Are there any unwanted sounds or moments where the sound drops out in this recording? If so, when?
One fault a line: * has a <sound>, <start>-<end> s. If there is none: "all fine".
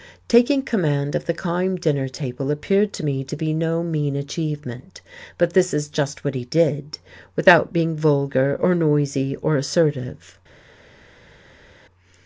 all fine